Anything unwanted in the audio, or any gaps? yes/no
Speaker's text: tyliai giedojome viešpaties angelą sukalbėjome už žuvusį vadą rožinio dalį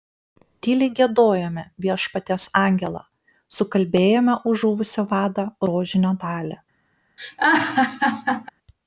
yes